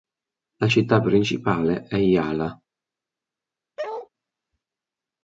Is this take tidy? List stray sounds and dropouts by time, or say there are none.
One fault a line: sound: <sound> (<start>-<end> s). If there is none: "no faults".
sound: bark (3.8-4.1 s)